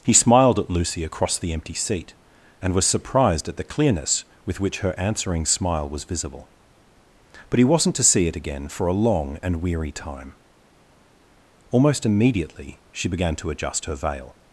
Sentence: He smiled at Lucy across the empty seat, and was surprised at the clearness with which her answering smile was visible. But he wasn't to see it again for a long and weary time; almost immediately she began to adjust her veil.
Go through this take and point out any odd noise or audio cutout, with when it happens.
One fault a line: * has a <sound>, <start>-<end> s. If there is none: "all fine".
all fine